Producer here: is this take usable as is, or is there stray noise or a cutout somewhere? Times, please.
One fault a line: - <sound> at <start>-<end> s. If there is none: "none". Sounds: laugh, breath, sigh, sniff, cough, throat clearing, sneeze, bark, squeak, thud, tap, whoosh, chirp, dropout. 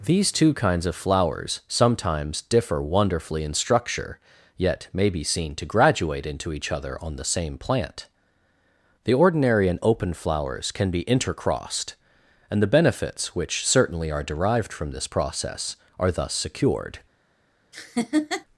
- laugh at 17.7-18.5 s